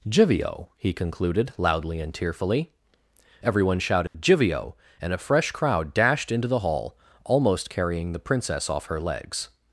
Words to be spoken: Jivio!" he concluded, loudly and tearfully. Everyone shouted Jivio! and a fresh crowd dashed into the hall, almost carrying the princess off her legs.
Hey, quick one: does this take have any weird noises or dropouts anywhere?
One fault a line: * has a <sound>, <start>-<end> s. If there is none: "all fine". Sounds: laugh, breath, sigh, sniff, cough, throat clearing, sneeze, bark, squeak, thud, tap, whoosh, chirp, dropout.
* has a dropout, 4.1-4.1 s